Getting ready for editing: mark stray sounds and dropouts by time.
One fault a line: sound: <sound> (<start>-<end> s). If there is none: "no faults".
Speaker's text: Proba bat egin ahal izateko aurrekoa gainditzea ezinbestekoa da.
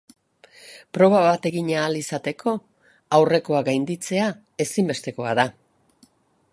no faults